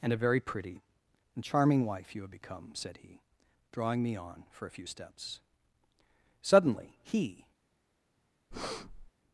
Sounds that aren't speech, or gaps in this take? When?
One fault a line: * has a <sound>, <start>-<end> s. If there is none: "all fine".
* has a breath, 8.5-9.1 s